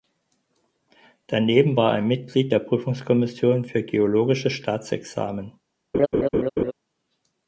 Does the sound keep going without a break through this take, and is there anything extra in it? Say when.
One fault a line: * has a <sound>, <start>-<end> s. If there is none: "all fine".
* has a laugh, 5.9-6.7 s